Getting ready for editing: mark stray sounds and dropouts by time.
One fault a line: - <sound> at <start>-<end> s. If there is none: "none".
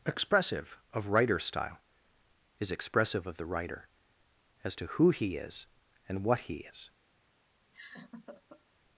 - laugh at 7.7-8.7 s